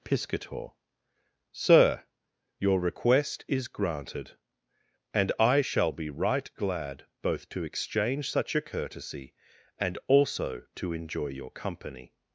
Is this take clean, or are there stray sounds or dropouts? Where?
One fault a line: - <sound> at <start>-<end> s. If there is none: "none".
none